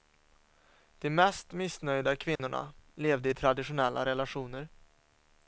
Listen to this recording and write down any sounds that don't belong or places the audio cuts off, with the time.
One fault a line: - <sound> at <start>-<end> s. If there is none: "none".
- dropout at 2.4-2.4 s